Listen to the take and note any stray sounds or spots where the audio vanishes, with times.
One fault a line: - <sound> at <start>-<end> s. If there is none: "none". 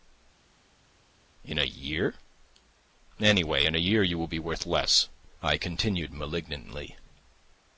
none